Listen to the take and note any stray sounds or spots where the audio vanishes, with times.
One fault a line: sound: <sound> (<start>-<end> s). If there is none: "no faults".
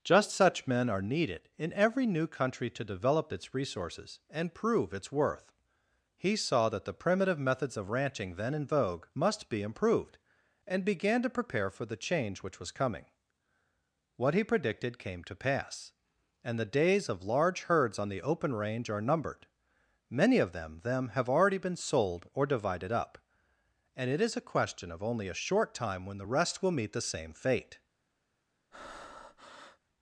sound: breath (28.7-29.8 s)